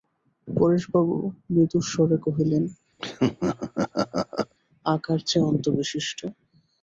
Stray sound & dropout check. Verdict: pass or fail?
fail